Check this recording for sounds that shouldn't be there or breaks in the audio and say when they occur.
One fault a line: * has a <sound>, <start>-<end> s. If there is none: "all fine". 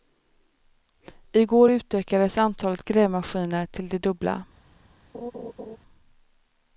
* has a laugh, 5.1-5.8 s